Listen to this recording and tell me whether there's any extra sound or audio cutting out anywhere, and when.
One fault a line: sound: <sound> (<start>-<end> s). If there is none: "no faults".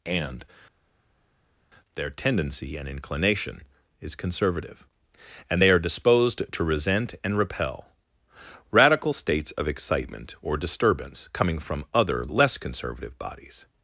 no faults